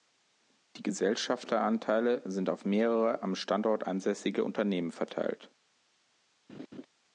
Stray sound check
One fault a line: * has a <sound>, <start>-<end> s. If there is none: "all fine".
* has a laugh, 6.5-6.9 s